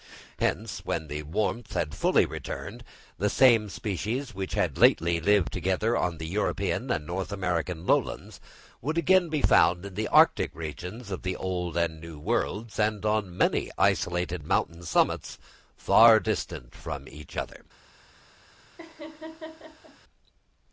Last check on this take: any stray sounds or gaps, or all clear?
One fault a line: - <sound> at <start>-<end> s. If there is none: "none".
- laugh at 18.8-20.0 s